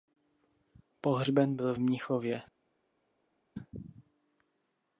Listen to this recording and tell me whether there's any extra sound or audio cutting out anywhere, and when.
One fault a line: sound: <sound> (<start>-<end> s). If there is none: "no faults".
no faults